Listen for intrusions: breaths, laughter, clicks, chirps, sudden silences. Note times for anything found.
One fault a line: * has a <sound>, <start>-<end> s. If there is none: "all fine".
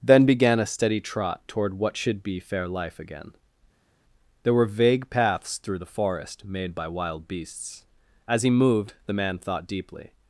all fine